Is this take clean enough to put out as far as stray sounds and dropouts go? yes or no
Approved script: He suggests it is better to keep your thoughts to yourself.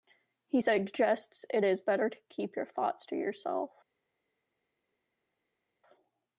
yes